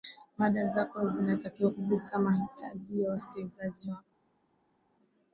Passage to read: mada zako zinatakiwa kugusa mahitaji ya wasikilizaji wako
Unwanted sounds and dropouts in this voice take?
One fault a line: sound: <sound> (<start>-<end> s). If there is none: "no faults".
no faults